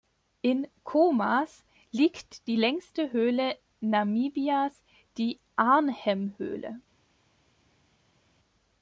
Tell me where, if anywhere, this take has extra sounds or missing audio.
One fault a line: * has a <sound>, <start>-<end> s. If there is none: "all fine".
all fine